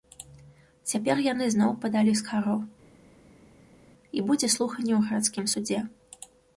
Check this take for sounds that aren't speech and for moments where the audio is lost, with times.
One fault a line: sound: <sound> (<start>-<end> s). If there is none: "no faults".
no faults